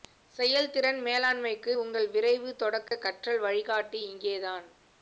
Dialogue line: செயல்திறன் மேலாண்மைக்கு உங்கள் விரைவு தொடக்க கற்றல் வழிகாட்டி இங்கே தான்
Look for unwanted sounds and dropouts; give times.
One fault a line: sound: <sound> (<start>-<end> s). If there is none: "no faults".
sound: dropout (2.9-2.9 s)